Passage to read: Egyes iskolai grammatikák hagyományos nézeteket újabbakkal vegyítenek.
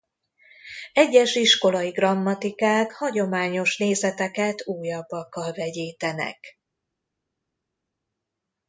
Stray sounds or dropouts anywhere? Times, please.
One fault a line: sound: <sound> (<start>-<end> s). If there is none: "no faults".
no faults